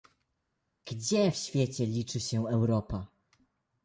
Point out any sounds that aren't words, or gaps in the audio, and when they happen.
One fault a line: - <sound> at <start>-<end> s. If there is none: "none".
none